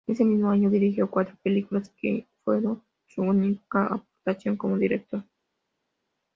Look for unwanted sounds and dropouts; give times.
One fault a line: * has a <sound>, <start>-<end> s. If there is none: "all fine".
all fine